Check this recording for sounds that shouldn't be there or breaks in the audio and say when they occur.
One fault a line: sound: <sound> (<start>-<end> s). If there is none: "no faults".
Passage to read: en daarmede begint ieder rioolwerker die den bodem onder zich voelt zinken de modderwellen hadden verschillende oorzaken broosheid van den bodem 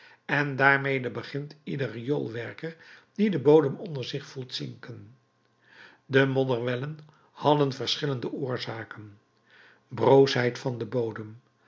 no faults